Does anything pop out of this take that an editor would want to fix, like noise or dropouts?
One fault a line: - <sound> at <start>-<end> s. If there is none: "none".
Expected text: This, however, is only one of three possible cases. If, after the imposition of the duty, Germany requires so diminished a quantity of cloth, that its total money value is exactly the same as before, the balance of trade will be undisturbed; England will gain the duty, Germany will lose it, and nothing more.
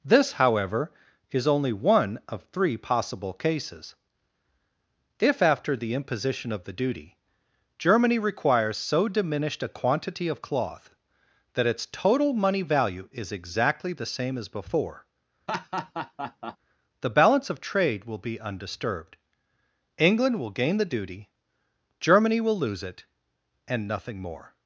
- laugh at 15.5-16.6 s